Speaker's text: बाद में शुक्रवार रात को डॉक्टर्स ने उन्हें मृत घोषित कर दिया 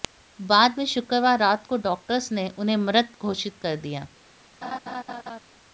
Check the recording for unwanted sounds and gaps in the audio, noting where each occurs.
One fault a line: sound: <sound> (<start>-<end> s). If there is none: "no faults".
sound: laugh (4.6-5.4 s)